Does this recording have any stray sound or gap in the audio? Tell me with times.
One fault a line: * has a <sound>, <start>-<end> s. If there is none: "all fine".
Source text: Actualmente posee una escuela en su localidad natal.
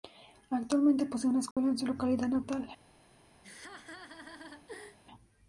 * has a dropout, 1.5-1.6 s
* has a laugh, 3.4-5.0 s